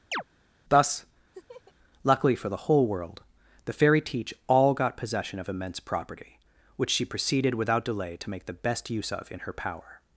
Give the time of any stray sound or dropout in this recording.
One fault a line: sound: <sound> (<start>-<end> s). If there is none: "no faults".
sound: chirp (0.1-0.2 s)
sound: laugh (1.3-1.7 s)